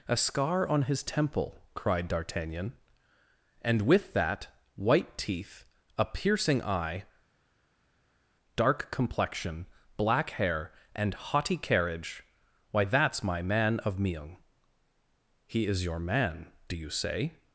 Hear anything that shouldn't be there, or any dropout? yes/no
no